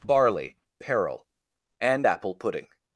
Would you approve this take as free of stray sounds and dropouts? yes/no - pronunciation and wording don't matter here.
yes